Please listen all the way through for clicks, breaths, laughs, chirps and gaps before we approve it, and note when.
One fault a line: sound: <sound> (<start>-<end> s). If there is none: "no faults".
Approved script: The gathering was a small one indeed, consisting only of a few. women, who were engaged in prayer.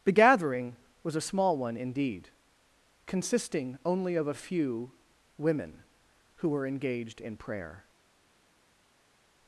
no faults